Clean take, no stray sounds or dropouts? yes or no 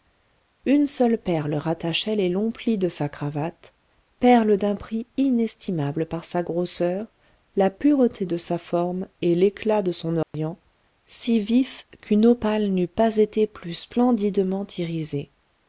no